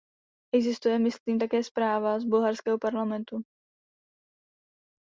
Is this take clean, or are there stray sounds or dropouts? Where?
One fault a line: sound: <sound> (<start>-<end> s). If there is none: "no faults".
no faults